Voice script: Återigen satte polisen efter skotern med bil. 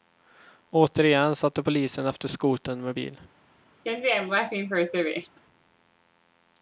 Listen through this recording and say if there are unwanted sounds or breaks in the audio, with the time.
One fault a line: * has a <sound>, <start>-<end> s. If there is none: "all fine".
* has a laugh, 3.8-5.4 s